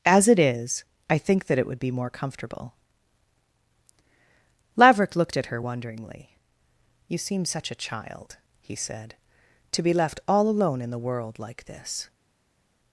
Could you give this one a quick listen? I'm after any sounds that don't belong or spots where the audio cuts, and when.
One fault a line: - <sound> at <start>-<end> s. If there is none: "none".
none